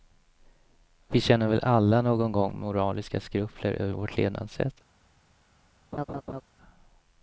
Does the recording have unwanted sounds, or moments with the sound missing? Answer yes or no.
yes